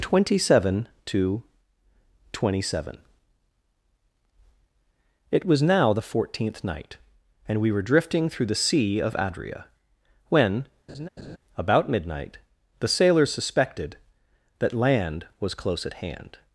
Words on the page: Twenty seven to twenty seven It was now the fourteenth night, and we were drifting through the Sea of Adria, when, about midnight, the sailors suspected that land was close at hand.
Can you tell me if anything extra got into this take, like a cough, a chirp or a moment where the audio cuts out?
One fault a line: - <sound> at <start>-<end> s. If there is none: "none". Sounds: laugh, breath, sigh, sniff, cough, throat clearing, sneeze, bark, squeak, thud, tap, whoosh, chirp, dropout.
- laugh at 10.9-11.4 s